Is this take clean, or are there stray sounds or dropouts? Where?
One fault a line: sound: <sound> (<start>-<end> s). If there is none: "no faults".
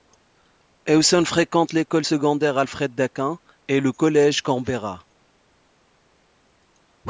no faults